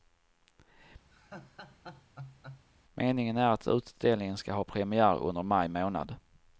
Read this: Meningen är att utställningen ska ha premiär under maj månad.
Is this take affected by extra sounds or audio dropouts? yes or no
yes